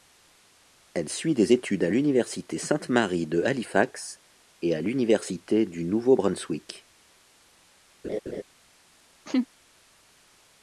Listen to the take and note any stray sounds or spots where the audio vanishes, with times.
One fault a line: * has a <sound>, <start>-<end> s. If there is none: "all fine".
* has a laugh, 8.0-8.4 s
* has a laugh, 9.3-9.5 s